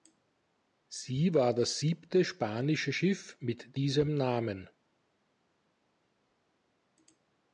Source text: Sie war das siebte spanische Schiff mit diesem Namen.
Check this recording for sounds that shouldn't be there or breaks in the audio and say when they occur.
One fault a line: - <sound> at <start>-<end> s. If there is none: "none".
none